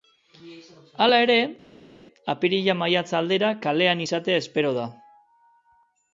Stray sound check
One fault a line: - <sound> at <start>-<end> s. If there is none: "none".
none